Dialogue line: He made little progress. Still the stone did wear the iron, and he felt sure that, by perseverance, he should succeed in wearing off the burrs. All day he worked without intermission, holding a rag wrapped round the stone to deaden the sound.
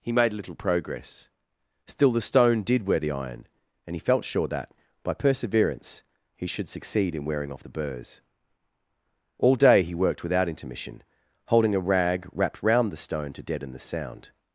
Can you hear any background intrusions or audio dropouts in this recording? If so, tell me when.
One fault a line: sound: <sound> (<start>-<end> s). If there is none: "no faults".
no faults